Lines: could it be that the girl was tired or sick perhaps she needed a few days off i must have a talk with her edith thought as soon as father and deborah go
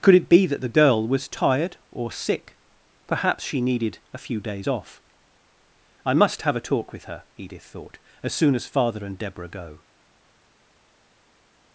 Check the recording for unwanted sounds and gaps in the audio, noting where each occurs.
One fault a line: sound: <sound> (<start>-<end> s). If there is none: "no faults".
no faults